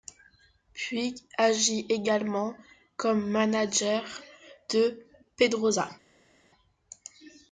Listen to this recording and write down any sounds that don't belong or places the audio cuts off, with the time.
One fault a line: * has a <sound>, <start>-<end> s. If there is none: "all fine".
all fine